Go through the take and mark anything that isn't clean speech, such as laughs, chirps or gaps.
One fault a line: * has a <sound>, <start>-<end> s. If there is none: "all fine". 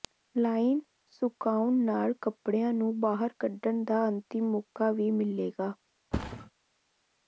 * has a thud, 6.1-6.5 s